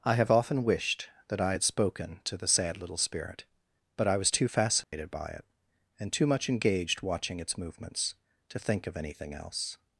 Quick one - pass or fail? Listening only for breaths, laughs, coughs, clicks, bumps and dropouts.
fail